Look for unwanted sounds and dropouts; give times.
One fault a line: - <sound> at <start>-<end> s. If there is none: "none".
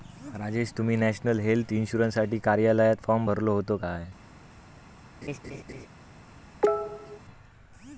- laugh at 5.2-5.9 s
- cough at 6.6-7.2 s